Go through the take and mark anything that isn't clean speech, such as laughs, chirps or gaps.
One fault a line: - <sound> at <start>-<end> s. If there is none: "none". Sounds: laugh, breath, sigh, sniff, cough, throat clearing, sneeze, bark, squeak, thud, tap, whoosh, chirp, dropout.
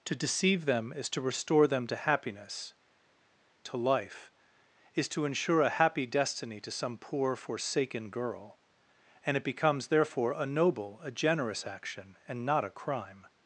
none